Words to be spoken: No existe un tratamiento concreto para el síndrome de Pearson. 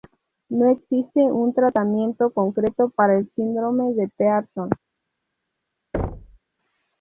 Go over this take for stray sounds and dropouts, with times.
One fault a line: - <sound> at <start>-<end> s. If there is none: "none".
- thud at 5.9-6.4 s